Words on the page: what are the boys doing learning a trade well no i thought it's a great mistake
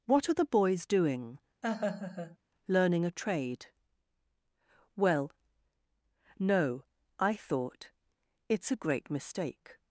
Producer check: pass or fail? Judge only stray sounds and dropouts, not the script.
fail